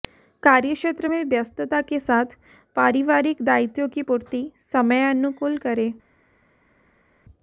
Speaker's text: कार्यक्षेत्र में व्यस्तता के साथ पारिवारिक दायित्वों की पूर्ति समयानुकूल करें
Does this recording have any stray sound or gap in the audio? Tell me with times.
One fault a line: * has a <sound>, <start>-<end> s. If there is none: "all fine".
all fine